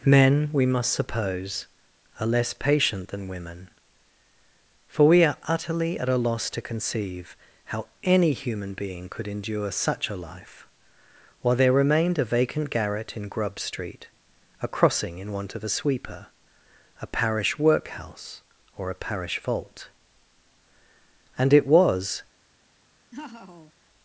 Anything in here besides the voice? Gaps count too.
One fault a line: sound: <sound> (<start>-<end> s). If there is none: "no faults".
sound: laugh (23.1-23.7 s)